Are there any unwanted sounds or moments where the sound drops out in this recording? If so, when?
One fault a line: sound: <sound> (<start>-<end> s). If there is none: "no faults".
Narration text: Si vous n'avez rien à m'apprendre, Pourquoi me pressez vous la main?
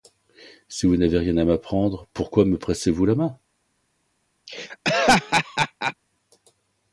sound: laugh (4.5-5.9 s)